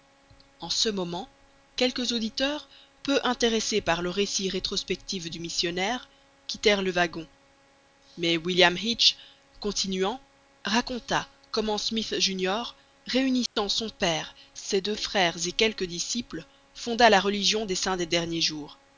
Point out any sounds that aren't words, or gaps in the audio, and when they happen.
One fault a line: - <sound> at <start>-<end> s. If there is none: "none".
- dropout at 13.5-13.6 s